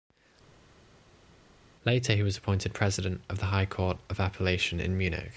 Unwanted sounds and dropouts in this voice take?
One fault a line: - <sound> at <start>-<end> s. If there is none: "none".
none